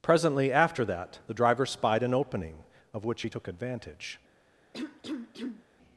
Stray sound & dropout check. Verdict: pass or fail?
fail